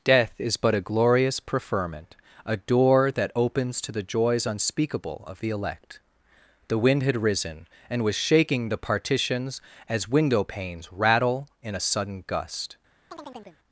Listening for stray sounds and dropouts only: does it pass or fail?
fail